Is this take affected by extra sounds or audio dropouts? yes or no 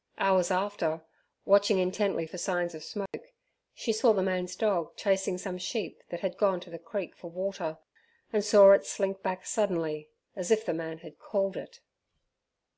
yes